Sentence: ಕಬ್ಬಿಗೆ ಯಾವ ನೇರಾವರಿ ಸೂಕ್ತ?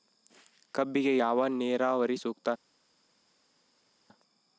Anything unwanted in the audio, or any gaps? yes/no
no